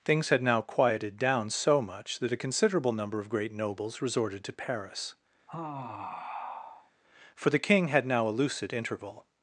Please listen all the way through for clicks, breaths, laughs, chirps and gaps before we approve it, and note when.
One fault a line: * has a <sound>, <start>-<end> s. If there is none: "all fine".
* has a sigh, 5.5-6.9 s